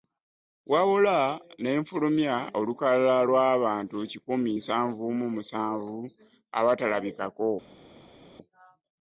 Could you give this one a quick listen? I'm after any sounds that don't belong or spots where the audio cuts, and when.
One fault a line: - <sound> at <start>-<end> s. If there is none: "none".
none